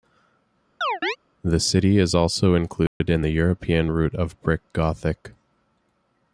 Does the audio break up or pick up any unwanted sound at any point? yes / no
yes